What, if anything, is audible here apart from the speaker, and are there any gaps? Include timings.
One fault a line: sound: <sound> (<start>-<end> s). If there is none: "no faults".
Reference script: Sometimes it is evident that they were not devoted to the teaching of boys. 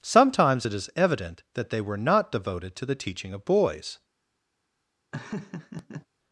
sound: laugh (5.1-6.1 s)